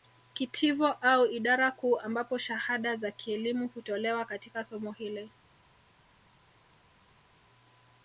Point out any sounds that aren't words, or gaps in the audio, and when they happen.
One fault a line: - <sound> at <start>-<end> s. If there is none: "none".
none